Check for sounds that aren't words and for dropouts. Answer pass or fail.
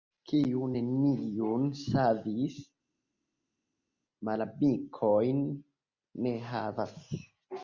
pass